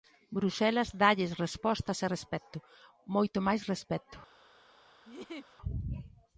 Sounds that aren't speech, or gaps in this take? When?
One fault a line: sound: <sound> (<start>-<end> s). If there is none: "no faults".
sound: laugh (5.0-5.6 s)